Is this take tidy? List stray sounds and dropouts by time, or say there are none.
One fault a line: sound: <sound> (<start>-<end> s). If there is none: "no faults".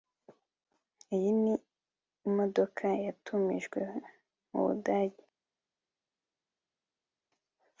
no faults